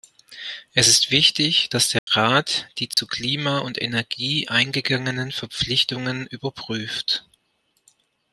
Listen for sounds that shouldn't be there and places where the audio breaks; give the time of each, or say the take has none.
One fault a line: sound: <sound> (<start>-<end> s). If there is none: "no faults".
sound: dropout (2.0-2.1 s)
sound: dropout (2.9-3.0 s)